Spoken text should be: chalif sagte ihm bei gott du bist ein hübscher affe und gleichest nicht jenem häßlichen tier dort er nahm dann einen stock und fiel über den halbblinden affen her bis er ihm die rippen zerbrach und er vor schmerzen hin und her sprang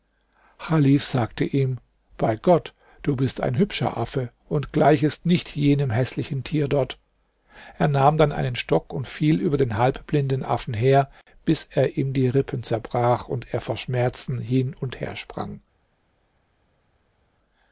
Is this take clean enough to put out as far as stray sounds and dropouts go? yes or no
yes